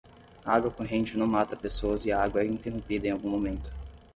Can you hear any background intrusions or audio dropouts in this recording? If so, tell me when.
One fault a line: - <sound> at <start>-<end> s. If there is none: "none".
none